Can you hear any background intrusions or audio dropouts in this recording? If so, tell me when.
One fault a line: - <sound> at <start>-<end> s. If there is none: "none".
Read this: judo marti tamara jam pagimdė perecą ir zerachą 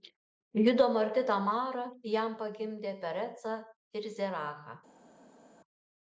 none